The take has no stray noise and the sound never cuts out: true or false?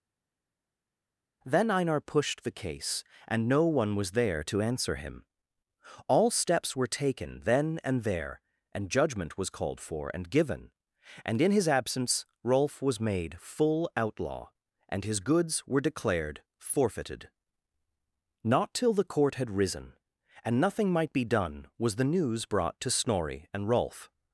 true